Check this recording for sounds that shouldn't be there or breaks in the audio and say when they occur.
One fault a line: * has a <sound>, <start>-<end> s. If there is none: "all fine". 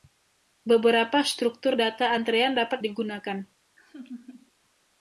* has a laugh, 3.8-4.5 s